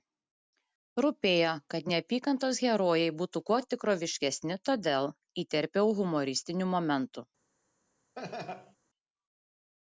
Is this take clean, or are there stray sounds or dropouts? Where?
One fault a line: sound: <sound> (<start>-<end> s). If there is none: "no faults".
sound: laugh (8.2-8.8 s)